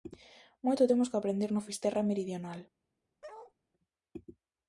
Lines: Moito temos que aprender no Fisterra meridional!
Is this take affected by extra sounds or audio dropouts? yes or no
yes